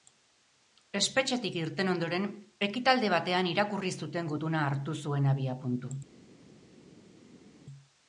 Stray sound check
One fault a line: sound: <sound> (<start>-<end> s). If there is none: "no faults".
no faults